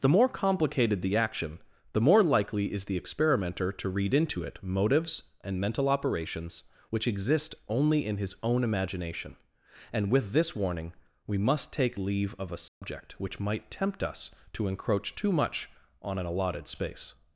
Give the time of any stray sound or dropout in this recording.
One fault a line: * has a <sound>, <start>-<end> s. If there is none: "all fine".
* has a dropout, 12.7-12.8 s